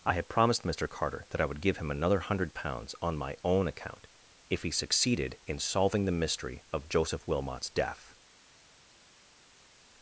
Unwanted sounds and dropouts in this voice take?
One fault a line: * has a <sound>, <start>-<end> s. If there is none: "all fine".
all fine